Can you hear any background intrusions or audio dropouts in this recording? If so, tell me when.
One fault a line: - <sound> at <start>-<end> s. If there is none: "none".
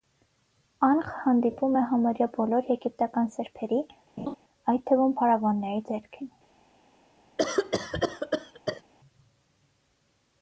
- laugh at 4.2-4.4 s
- cough at 7.4-8.8 s